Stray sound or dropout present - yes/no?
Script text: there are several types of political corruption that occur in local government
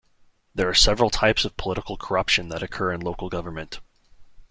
no